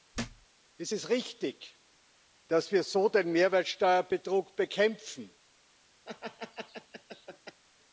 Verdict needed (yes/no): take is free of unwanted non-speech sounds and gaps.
no